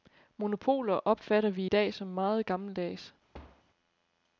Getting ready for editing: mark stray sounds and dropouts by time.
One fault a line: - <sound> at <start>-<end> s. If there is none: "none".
- thud at 3.3-3.6 s